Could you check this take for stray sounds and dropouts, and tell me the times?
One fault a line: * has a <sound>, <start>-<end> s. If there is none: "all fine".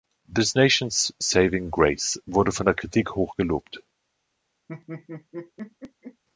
* has a laugh, 4.7-6.2 s